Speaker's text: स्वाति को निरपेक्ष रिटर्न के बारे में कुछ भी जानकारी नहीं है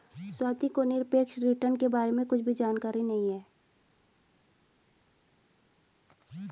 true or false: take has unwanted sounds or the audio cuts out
false